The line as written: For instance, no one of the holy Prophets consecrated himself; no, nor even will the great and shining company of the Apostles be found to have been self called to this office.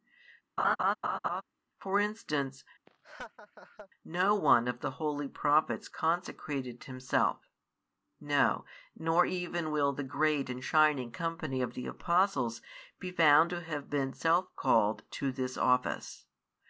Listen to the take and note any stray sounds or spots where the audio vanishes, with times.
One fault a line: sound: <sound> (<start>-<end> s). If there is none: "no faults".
sound: laugh (0.6-1.4 s)
sound: laugh (2.9-3.9 s)